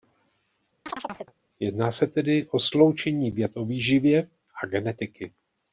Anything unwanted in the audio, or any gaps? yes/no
yes